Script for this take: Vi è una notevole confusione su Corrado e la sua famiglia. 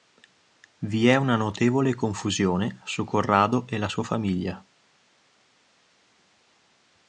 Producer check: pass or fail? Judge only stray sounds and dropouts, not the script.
pass